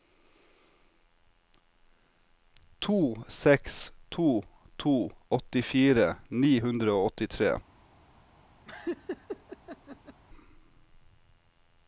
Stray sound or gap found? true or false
true